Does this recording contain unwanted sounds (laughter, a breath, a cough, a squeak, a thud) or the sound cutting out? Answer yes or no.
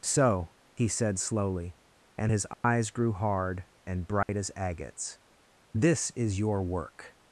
yes